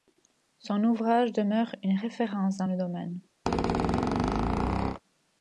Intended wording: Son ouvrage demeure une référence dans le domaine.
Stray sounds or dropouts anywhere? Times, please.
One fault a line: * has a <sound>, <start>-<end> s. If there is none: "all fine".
* has a squeak, 3.5-5.0 s